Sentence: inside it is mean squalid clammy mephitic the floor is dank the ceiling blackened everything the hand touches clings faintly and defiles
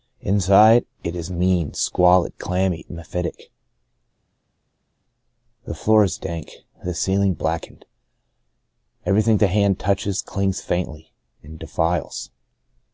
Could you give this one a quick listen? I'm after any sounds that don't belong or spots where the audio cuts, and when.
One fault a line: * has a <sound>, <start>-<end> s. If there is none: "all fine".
all fine